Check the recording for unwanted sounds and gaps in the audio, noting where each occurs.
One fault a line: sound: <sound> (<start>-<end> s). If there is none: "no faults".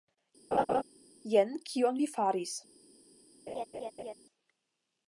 sound: laugh (0.5-0.8 s)
sound: laugh (3.5-4.1 s)